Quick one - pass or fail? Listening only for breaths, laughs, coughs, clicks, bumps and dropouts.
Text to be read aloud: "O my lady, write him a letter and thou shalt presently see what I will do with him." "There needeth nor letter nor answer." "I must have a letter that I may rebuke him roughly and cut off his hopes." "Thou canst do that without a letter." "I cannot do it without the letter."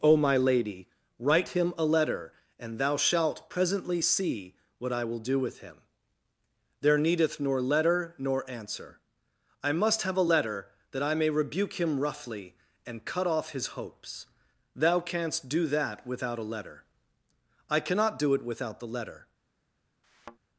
fail